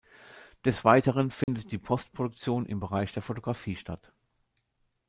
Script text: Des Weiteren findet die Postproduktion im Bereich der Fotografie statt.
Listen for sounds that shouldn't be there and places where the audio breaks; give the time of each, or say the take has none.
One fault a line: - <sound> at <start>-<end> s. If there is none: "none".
- dropout at 1.4-1.5 s